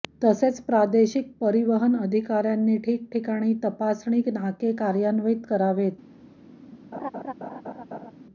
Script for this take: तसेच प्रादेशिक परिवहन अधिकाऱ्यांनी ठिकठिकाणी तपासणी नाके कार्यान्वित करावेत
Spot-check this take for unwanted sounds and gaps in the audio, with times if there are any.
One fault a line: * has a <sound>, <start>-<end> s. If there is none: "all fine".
* has a laugh, 6.9-8.1 s